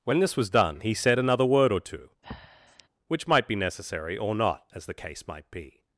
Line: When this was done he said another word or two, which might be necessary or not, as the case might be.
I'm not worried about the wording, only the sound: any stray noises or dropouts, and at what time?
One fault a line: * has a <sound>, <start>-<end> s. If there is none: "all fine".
* has a breath, 2.2-2.9 s